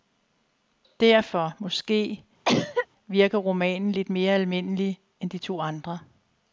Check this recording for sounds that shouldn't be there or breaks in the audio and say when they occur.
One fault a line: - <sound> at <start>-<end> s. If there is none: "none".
- cough at 2.4-2.9 s